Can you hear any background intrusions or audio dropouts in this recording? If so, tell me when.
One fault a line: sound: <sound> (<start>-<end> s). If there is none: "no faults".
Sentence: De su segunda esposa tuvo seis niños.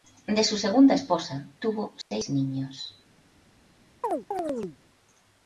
sound: dropout (2.0-2.1 s)
sound: chirp (4.0-4.8 s)